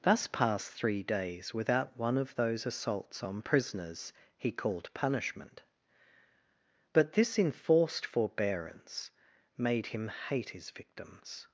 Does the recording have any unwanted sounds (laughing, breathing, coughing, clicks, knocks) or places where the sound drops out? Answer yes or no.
no